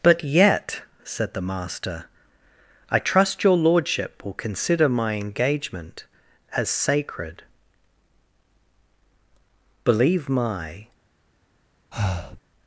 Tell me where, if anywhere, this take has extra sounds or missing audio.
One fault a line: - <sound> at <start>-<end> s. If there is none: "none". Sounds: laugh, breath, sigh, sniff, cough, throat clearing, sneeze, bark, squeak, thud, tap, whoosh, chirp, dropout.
- breath at 11.9-12.4 s